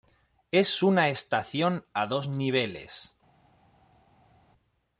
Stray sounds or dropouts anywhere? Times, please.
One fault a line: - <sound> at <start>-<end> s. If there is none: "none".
none